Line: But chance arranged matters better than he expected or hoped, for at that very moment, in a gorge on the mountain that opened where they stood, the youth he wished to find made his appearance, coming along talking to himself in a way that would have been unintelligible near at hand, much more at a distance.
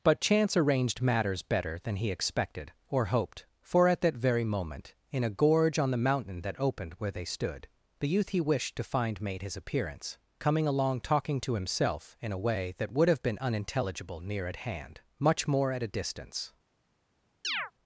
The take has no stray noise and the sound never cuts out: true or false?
false